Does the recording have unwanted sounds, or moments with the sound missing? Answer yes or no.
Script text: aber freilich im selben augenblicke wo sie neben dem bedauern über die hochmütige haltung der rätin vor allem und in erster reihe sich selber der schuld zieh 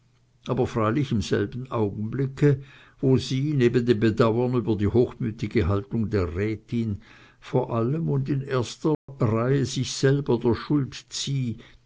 yes